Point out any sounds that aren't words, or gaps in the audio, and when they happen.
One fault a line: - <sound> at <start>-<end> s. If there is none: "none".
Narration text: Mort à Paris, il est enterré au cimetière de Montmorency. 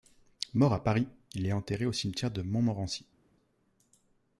none